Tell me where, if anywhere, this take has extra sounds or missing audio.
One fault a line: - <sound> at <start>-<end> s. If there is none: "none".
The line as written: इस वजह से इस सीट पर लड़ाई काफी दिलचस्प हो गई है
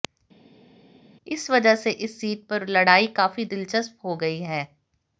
none